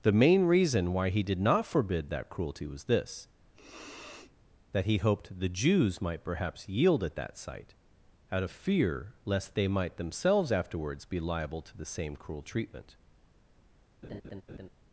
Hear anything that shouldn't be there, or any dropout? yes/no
yes